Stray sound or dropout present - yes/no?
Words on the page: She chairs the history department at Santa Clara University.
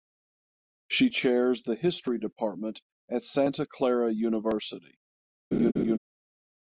yes